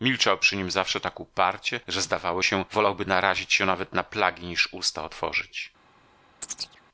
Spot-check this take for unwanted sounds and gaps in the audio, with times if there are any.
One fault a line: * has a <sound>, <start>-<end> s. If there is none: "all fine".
* has a chirp, 6.4-6.8 s